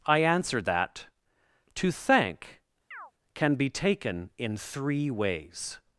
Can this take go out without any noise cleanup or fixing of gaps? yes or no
no